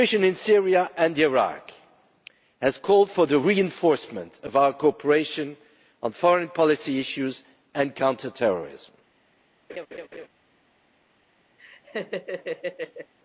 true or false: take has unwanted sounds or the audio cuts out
true